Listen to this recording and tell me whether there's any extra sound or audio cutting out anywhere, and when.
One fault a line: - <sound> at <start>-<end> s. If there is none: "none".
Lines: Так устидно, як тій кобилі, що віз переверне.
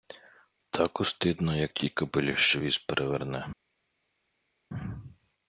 none